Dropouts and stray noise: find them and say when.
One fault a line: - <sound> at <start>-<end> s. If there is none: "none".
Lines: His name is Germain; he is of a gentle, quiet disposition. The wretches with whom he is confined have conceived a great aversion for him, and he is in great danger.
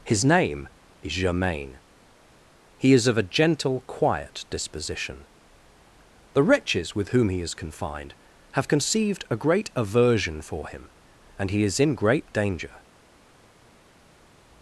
none